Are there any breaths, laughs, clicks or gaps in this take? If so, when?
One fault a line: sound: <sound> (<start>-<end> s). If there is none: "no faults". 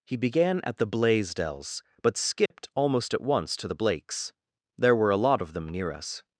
sound: dropout (2.5-2.5 s)